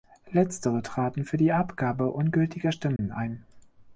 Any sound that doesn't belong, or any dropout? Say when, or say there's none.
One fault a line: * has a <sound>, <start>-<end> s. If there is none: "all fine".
* has a dropout, 3.0-3.0 s